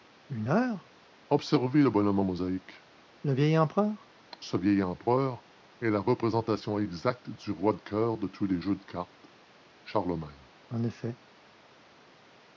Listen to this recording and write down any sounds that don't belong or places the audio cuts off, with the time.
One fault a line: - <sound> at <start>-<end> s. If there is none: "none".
none